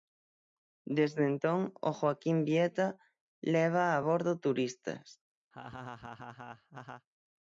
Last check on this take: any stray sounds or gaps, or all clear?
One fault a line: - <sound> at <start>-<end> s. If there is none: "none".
- laugh at 5.5-7.1 s